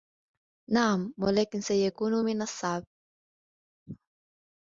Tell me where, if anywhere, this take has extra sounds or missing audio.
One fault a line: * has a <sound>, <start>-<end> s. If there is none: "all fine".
all fine